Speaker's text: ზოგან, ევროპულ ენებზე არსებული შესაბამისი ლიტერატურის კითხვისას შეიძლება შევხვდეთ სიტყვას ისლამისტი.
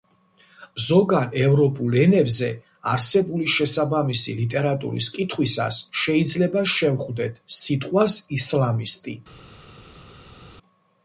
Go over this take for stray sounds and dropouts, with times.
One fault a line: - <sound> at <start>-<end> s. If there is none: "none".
none